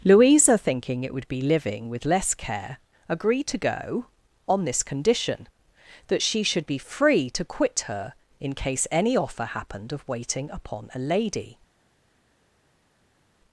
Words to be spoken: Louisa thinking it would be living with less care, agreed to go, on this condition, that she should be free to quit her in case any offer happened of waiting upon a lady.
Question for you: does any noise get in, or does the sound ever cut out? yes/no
no